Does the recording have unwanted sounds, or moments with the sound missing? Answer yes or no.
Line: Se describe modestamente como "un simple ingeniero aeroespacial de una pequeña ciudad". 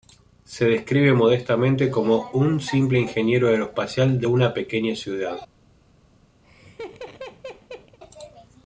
yes